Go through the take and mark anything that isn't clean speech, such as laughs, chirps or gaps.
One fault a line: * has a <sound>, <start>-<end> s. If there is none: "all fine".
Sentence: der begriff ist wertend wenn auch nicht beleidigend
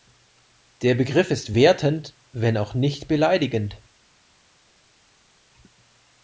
all fine